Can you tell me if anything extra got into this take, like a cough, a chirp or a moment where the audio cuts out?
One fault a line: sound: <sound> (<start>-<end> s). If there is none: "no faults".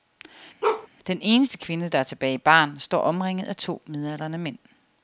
sound: bark (0.6-0.9 s)